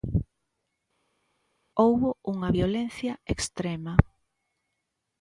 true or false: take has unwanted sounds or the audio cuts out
false